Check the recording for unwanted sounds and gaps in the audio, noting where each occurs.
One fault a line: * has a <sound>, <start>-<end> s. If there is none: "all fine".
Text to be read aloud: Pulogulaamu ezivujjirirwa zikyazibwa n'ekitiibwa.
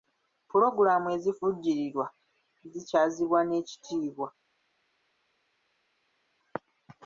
all fine